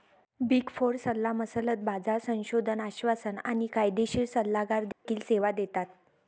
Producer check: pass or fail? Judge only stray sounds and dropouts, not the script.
fail